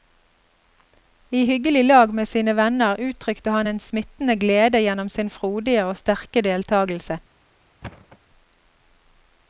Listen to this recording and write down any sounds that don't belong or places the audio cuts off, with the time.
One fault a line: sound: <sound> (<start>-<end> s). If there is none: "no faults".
sound: thud (7.8-8.2 s)